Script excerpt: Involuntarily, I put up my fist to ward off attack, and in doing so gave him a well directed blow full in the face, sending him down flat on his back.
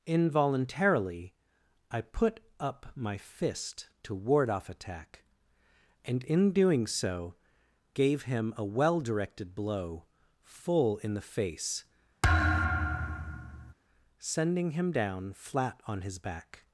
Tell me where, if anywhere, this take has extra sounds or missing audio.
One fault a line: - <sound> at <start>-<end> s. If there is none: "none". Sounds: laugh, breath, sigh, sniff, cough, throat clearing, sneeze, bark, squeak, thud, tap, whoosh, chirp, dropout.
- thud at 12.2-13.7 s